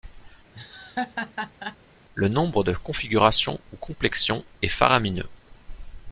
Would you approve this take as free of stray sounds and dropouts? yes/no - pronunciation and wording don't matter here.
no